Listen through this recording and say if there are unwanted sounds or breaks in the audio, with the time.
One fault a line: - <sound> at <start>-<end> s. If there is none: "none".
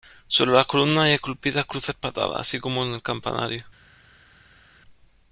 none